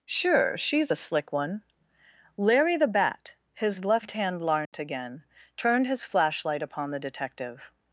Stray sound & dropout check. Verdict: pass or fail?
fail